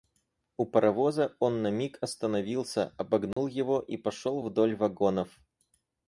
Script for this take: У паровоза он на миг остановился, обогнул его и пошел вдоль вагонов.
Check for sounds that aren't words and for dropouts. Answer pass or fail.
fail